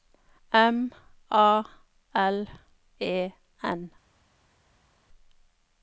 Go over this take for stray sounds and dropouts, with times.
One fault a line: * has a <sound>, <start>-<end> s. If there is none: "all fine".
all fine